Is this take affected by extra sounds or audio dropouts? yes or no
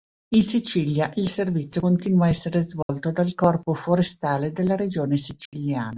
yes